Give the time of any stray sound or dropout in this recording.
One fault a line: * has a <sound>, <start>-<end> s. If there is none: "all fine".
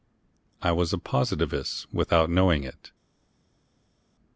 all fine